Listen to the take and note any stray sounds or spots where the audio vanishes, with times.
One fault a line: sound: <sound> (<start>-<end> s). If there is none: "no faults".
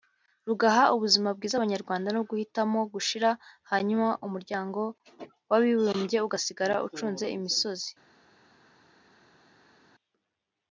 no faults